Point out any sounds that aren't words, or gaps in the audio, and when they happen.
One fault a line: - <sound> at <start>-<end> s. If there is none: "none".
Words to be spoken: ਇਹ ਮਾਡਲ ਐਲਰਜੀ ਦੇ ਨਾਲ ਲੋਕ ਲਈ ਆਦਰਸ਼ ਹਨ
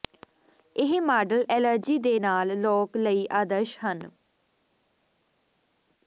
none